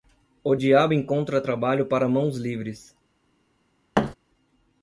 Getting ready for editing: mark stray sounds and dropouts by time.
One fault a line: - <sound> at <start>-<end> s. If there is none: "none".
- thud at 3.9-4.1 s